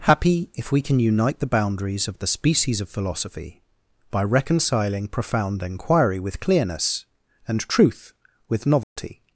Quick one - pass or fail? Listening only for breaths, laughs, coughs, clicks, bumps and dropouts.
fail